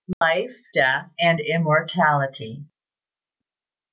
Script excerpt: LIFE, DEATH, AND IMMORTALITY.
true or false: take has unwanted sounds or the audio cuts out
true